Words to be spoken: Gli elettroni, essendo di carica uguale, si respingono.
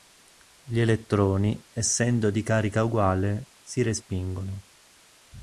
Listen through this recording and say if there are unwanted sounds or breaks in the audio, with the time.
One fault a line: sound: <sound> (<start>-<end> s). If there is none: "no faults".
no faults